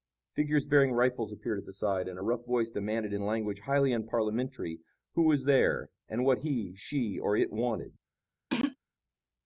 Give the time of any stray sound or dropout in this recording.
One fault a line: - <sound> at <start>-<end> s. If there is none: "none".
- throat clearing at 8.5-8.8 s